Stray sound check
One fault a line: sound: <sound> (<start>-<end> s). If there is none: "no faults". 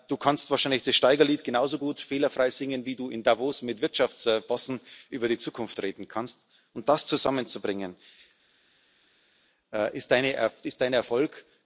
no faults